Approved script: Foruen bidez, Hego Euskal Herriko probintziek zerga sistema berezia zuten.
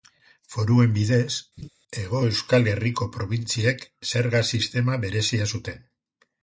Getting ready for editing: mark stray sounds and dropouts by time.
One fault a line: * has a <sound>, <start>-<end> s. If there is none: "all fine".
* has a laugh, 1.6-1.7 s